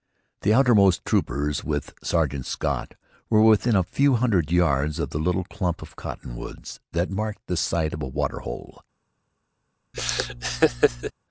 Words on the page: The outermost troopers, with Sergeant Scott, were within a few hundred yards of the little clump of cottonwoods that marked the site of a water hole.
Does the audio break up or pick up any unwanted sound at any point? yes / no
yes